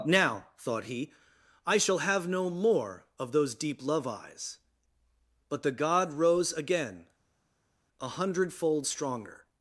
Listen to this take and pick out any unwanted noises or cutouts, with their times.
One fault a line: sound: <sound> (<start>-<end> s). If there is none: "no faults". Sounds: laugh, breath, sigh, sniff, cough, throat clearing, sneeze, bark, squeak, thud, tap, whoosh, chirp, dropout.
no faults